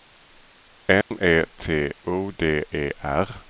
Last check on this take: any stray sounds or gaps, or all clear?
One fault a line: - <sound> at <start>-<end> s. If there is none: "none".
- dropout at 1.0-1.1 s